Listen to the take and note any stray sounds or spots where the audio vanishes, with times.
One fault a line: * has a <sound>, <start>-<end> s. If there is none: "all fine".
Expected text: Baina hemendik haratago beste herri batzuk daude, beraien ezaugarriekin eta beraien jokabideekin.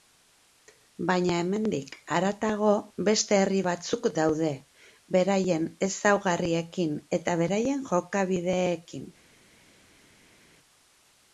all fine